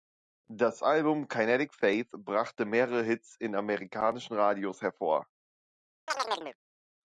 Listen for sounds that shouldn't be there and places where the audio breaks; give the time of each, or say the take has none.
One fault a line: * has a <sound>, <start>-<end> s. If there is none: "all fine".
* has a chirp, 6.1-6.6 s